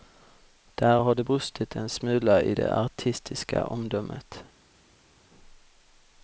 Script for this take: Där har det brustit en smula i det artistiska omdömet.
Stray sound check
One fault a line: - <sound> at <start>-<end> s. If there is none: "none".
none